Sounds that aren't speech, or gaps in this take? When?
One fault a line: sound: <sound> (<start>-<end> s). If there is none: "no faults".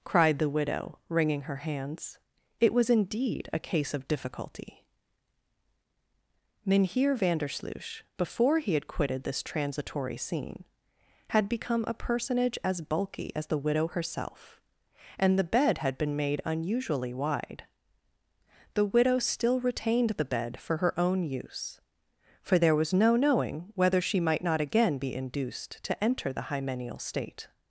no faults